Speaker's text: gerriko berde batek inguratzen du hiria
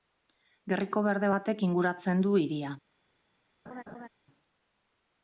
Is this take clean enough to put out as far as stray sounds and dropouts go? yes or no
no